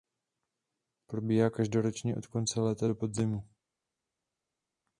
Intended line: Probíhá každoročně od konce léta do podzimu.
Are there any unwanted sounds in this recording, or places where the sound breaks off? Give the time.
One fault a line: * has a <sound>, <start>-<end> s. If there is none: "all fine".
all fine